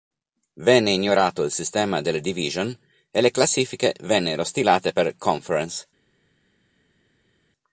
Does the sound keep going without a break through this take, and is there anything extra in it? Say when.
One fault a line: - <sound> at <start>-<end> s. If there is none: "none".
none